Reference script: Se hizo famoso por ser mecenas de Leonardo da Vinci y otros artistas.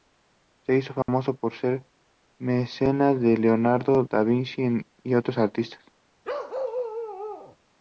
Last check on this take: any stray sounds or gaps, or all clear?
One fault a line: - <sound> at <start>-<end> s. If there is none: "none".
- dropout at 1.0-1.1 s
- bark at 6.2-7.6 s